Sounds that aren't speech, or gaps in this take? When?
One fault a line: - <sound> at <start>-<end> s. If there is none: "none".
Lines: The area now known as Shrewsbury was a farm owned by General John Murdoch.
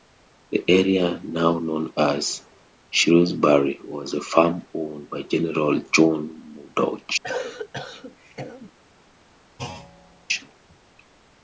- cough at 7.2-8.7 s
- thud at 9.6-10.3 s